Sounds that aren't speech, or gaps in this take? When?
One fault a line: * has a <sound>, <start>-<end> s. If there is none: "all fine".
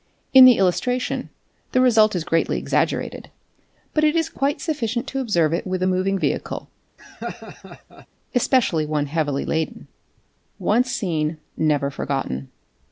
* has a laugh, 7.0-8.1 s